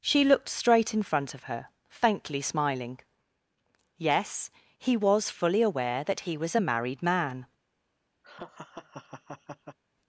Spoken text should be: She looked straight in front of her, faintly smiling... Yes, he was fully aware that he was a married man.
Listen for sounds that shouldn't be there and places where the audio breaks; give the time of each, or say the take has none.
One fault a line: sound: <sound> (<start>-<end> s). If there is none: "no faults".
sound: laugh (8.2-9.8 s)